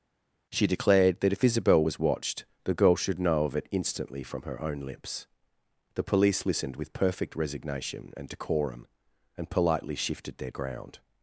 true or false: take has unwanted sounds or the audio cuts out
false